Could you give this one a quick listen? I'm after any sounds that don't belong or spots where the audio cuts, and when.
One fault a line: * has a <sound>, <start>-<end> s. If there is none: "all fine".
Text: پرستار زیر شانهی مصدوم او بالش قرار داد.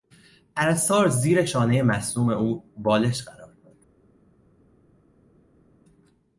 all fine